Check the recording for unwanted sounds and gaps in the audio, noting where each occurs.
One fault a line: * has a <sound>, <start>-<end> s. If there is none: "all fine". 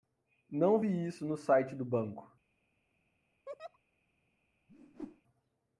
* has a laugh, 3.5-3.8 s
* has a whoosh, 4.7-5.2 s